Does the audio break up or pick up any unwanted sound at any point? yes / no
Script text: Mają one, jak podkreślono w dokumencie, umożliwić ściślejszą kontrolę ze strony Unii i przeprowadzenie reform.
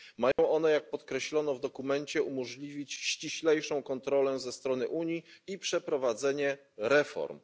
yes